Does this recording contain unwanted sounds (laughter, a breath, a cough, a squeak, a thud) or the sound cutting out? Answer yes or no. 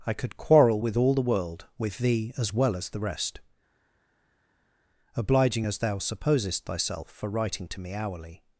no